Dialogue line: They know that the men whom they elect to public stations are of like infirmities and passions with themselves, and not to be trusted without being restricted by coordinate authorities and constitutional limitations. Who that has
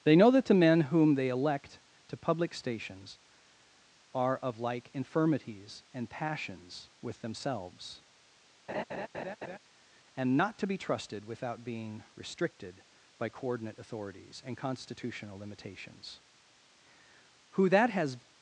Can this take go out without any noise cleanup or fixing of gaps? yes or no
no